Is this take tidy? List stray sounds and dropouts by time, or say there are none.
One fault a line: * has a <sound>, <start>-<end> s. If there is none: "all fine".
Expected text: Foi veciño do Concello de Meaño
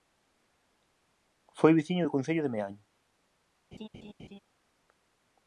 * has a laugh, 3.7-4.4 s